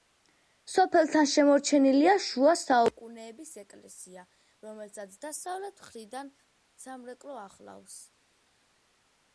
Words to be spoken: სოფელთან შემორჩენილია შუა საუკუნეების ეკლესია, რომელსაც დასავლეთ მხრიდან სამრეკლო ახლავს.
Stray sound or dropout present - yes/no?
no